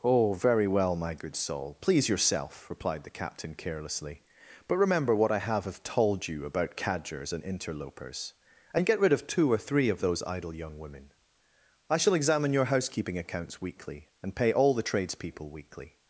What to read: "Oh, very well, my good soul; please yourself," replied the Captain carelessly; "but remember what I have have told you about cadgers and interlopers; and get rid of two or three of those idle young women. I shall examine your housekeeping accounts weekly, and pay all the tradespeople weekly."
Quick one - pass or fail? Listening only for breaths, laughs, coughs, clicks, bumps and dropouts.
pass